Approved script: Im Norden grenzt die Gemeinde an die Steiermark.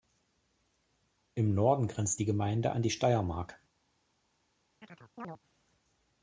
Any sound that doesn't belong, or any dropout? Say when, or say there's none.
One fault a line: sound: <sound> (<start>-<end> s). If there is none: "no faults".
sound: chirp (4.8-5.4 s)